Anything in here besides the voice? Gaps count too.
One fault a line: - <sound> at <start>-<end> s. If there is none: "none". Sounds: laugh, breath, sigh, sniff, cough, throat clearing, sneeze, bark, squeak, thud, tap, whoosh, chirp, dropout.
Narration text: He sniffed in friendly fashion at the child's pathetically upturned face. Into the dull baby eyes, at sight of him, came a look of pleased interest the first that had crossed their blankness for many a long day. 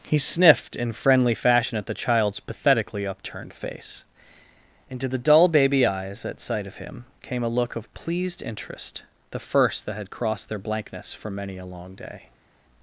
none